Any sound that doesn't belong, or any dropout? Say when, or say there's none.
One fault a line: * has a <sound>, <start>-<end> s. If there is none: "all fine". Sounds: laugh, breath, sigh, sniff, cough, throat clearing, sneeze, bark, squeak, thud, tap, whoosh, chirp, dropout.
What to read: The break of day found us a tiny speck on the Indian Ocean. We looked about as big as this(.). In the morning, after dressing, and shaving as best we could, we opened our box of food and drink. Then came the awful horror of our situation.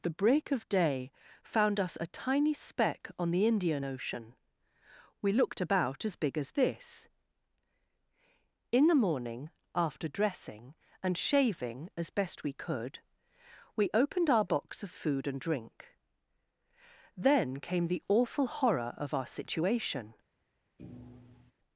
* has a thud, 20.8-21.5 s